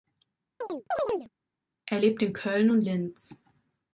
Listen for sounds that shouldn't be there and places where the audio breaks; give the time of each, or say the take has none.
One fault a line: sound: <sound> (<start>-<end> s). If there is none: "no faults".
sound: chirp (0.6-1.3 s)